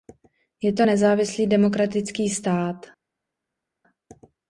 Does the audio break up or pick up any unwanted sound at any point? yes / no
no